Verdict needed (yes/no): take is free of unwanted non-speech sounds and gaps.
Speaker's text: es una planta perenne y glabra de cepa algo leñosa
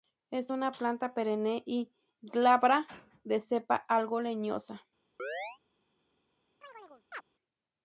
no